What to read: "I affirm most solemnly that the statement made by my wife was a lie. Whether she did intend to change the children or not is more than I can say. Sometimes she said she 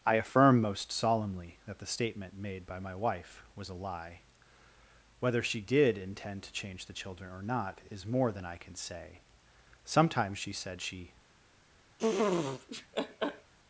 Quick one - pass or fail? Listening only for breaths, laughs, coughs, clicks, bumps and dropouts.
fail